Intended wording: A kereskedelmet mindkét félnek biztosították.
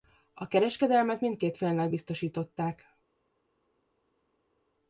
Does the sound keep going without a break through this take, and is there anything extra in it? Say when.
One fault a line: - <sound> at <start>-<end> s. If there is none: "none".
none